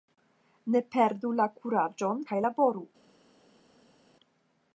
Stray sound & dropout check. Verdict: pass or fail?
pass